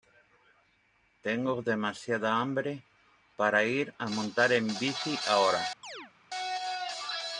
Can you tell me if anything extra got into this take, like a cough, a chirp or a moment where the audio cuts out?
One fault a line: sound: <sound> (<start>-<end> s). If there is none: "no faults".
sound: chirp (5.8-6.1 s)